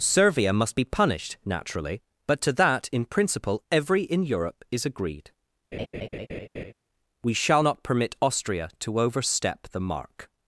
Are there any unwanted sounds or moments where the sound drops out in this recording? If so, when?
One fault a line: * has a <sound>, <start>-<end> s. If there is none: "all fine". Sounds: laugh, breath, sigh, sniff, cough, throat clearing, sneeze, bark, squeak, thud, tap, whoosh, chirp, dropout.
* has a laugh, 5.7-6.7 s